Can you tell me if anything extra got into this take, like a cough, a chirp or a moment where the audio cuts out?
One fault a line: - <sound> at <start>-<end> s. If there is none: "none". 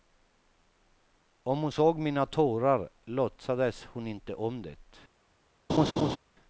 - laugh at 5.7-6.2 s